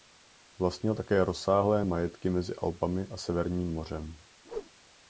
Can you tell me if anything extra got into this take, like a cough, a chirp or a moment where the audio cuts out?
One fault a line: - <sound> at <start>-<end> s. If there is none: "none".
- whoosh at 4.4-4.7 s